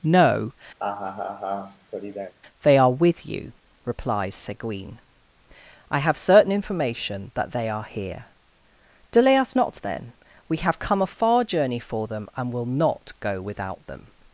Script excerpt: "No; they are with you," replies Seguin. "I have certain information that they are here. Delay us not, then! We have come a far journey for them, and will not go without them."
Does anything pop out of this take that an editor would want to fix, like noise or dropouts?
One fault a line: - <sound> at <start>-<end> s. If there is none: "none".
- laugh at 0.8-2.3 s